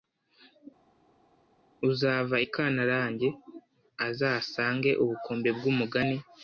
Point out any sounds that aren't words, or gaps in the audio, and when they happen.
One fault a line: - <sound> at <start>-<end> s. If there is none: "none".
none